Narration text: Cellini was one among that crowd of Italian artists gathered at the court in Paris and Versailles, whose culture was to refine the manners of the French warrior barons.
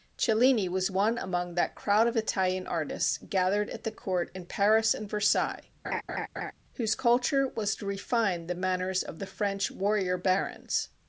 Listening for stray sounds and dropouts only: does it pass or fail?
fail